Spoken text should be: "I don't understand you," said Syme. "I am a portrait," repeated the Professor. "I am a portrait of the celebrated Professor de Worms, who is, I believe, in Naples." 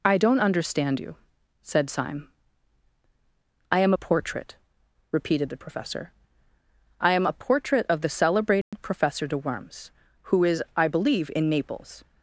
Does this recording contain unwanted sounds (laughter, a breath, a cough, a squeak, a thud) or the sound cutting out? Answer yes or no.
yes